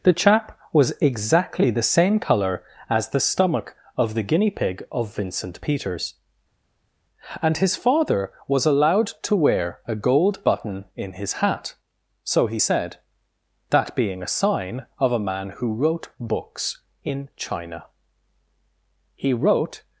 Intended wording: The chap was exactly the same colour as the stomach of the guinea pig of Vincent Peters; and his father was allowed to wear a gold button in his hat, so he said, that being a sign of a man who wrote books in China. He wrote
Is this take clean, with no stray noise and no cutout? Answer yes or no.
yes